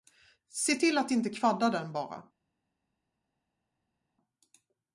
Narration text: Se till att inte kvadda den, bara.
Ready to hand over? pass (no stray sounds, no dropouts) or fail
pass